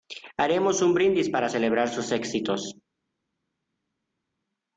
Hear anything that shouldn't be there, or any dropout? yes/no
no